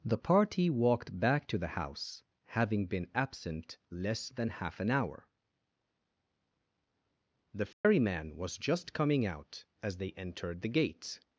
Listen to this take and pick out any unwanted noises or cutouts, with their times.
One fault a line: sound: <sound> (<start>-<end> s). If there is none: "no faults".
sound: dropout (7.7-7.8 s)